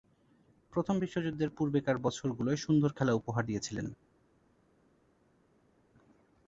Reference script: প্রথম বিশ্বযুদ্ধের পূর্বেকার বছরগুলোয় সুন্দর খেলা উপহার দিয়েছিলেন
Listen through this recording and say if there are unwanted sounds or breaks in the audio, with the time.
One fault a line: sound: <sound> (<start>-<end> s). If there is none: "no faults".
no faults